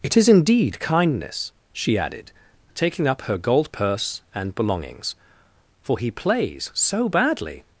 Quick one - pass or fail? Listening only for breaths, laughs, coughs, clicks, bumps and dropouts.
pass